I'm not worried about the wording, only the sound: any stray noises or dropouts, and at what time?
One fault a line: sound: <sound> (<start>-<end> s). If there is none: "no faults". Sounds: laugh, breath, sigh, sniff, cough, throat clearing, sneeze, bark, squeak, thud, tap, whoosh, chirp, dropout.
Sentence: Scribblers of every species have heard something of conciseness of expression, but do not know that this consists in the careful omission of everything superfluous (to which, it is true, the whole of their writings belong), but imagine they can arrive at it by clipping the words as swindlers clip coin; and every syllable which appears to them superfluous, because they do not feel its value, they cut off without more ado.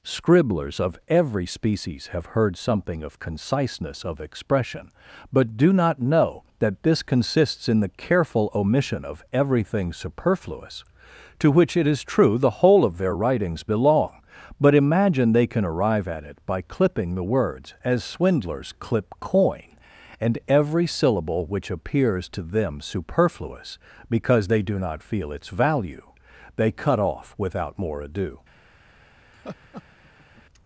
sound: laugh (29.3-30.4 s)